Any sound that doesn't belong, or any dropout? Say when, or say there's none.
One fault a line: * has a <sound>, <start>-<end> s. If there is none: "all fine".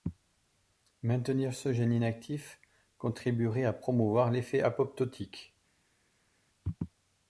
all fine